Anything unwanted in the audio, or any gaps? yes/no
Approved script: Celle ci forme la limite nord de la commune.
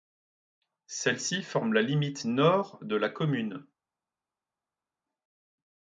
no